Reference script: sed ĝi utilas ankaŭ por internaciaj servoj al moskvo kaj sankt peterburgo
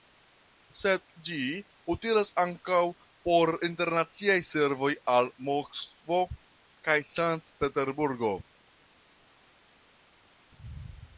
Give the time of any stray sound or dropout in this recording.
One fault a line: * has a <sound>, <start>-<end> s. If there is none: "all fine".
all fine